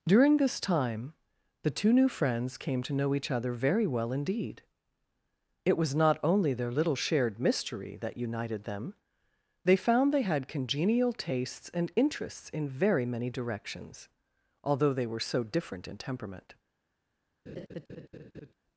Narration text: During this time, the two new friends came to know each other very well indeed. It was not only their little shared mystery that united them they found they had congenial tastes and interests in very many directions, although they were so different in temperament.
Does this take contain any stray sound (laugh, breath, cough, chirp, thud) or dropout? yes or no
yes